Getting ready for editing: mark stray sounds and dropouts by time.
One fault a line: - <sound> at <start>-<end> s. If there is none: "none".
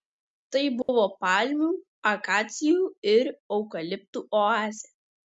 - dropout at 0.8-0.9 s